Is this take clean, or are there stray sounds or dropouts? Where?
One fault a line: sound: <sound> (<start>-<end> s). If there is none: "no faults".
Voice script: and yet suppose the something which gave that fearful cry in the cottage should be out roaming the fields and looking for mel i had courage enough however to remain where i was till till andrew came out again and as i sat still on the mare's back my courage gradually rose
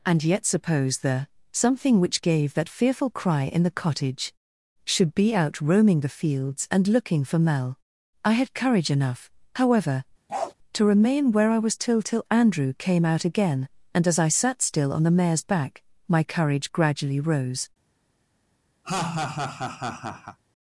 sound: bark (10.3-10.5 s)
sound: laugh (18.8-20.4 s)